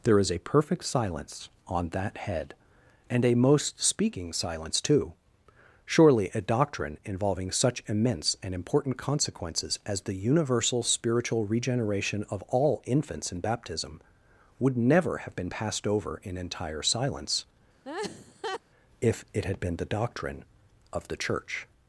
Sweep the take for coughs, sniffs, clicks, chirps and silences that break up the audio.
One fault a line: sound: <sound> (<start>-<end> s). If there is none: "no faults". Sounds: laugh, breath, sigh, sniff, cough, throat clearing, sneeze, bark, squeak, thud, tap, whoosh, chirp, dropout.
sound: laugh (17.8-18.6 s)